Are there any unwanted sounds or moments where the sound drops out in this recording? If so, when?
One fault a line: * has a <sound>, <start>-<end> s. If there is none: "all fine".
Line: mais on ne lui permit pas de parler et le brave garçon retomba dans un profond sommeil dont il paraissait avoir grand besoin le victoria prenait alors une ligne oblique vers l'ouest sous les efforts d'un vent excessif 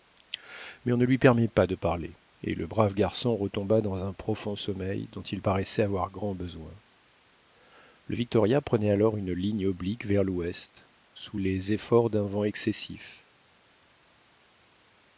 all fine